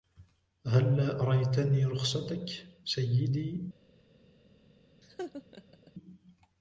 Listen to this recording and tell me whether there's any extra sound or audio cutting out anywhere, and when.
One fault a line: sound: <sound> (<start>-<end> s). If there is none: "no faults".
sound: laugh (5.0-5.9 s)